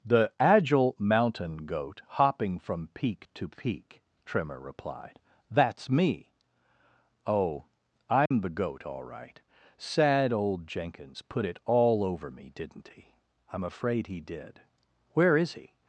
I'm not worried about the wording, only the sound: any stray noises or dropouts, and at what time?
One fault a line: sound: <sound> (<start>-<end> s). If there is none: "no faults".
sound: dropout (8.3-8.3 s)